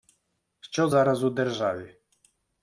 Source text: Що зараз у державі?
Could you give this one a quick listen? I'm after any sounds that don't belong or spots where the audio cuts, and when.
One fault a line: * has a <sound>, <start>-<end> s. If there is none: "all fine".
all fine